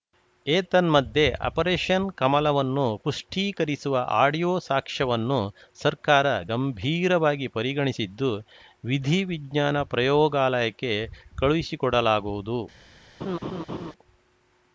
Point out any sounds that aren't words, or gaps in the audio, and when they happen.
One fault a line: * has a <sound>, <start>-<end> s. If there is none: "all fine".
* has a laugh, 13.2-13.9 s